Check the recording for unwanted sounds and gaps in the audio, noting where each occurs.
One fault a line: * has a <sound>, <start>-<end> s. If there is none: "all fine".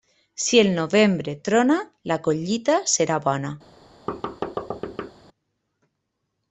* has a thud, 4.1-5.1 s